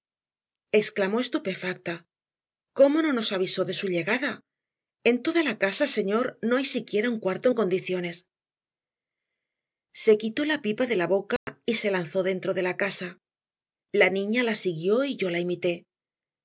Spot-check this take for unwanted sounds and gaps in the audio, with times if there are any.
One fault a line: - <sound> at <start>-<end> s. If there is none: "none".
- dropout at 11.4-11.5 s